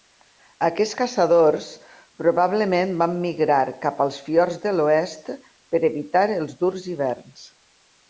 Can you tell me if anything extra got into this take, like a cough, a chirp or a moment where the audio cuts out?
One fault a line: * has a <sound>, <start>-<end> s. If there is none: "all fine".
all fine